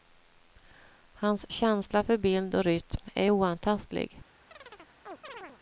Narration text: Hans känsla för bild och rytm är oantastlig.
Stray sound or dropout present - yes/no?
yes